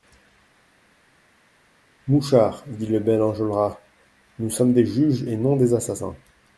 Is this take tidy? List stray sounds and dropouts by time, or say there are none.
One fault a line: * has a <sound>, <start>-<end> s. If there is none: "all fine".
all fine